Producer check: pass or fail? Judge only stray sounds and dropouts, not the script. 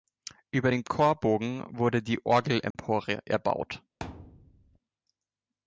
fail